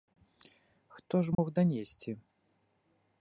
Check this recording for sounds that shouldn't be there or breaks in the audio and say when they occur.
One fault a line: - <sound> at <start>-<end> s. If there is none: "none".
- dropout at 1.3-1.4 s